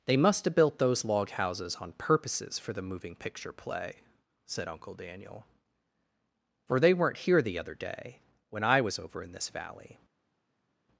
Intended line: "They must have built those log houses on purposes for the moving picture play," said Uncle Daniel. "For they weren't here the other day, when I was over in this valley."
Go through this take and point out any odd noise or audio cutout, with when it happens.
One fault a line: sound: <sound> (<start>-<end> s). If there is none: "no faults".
no faults